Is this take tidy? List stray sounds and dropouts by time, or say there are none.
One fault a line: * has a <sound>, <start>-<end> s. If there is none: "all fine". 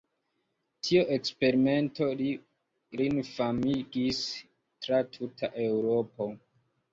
all fine